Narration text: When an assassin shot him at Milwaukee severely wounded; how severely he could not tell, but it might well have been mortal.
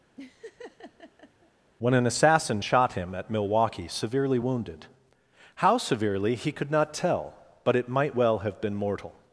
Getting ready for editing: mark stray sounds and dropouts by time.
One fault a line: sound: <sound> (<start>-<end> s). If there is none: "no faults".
sound: laugh (0.2-1.5 s)